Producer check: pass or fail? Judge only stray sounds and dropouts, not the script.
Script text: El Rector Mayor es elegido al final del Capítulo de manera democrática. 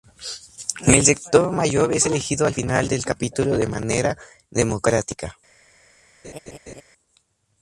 fail